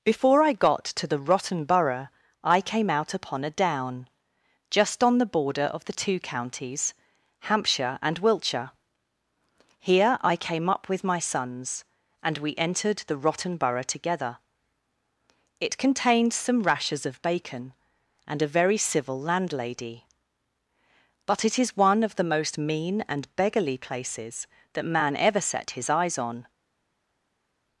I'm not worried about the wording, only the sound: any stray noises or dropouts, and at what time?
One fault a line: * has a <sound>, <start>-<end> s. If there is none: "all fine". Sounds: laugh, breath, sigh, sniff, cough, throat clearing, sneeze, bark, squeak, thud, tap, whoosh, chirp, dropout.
all fine